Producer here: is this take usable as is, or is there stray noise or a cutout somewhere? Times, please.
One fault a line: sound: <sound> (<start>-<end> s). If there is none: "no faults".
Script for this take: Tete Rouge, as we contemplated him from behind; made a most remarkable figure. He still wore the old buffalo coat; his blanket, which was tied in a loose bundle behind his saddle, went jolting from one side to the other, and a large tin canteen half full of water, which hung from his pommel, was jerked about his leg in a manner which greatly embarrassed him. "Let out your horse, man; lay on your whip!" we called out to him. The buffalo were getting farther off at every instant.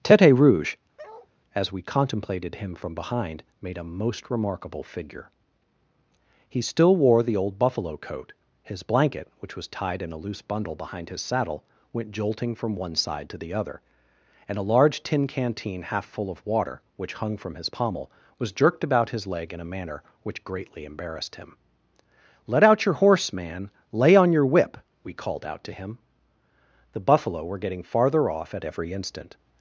sound: bark (1.0-1.3 s)